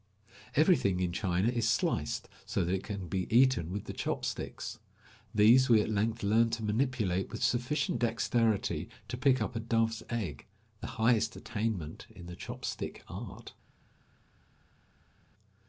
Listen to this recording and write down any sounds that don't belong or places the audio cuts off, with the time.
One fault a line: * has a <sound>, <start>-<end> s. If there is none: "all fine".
all fine